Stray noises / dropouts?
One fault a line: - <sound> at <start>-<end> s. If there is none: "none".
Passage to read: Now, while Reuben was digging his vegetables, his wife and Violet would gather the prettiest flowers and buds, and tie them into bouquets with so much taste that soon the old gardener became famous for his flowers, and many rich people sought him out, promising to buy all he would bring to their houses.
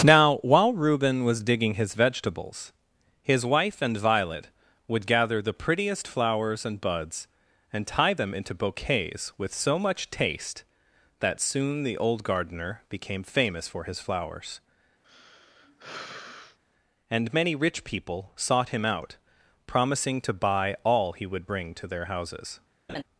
- sigh at 15.0-16.6 s
- laugh at 22.9-23.0 s